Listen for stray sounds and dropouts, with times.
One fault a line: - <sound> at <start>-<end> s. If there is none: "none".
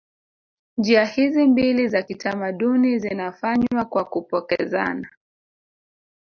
none